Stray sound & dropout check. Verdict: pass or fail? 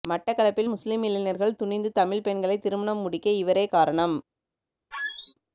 fail